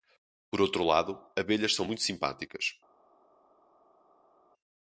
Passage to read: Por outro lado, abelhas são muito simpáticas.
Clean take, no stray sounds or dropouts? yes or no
yes